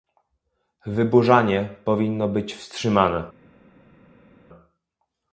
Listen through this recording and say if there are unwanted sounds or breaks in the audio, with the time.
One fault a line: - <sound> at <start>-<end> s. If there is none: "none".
none